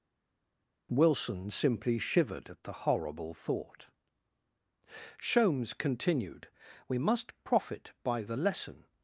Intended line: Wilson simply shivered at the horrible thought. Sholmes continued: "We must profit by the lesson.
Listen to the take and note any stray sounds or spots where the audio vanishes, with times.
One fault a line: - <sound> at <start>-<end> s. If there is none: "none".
none